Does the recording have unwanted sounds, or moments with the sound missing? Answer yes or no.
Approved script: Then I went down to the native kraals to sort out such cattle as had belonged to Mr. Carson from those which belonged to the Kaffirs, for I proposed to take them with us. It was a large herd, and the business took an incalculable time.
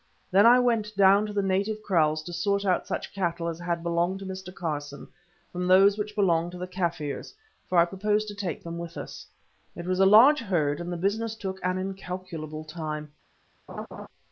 yes